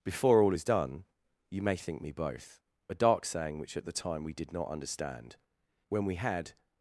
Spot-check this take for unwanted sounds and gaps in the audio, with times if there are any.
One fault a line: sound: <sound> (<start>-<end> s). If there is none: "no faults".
no faults